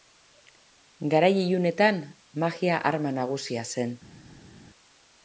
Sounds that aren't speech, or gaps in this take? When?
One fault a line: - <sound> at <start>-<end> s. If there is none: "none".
none